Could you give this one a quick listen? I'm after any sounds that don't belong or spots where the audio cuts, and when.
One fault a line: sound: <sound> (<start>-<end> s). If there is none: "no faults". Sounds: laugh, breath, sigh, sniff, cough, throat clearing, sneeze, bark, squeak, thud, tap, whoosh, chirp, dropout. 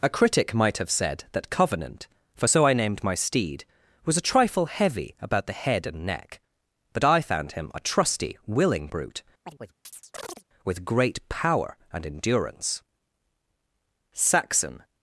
sound: chirp (9.4-10.4 s)